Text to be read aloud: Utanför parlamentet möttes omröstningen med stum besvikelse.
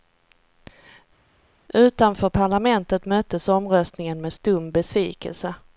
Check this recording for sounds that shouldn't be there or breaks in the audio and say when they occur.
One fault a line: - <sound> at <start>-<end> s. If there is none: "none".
none